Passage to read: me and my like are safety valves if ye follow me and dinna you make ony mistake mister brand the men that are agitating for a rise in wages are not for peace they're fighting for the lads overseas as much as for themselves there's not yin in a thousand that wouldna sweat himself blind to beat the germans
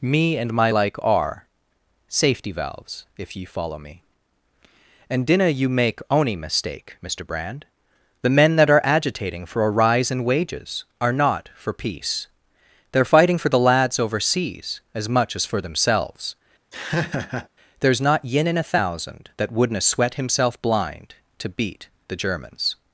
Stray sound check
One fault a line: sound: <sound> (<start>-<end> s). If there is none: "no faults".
sound: laugh (16.7-17.5 s)